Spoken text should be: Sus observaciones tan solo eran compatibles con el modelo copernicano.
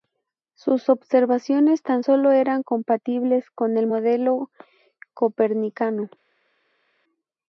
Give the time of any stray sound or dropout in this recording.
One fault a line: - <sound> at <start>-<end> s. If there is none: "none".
none